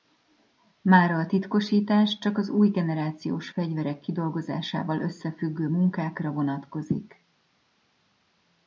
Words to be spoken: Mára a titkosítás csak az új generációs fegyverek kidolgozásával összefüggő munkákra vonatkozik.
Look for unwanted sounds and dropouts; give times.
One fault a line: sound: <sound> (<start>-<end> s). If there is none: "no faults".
no faults